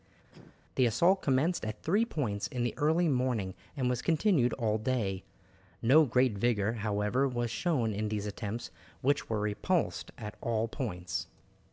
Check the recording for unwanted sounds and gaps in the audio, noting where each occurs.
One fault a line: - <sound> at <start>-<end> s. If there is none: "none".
- cough at 0.3-0.6 s